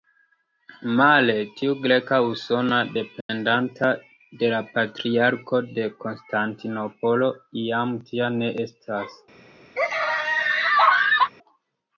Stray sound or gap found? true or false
true